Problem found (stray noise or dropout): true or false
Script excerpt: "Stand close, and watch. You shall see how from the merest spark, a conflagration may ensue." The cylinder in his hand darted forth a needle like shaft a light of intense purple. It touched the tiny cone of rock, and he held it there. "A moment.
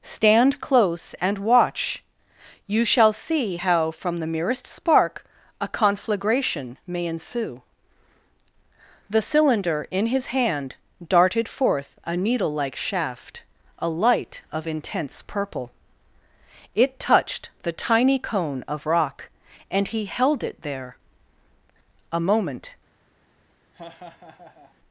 true